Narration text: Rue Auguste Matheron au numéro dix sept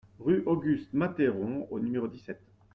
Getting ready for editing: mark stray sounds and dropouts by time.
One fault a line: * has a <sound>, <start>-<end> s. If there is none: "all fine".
all fine